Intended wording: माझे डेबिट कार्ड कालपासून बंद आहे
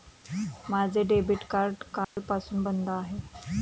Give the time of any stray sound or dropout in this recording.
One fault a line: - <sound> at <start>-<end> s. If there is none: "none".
- dropout at 2.0-2.2 s